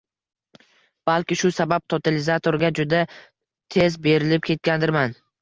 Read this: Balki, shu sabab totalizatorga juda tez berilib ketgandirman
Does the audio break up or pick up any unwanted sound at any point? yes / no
no